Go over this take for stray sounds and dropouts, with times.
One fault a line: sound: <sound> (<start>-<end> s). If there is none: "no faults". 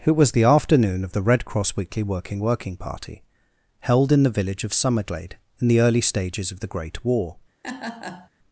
sound: laugh (7.6-8.3 s)